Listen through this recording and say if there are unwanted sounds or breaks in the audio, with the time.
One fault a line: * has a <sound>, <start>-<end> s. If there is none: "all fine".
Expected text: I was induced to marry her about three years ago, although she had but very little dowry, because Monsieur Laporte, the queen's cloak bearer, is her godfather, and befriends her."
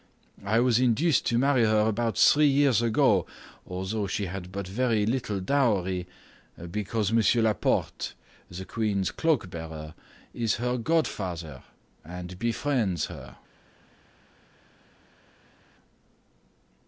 all fine